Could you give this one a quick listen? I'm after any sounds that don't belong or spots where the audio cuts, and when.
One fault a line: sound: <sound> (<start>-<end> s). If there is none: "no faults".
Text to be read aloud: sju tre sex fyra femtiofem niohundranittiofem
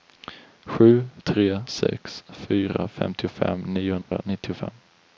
sound: dropout (4.0-4.1 s)